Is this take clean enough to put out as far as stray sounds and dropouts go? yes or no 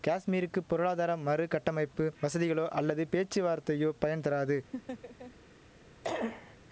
no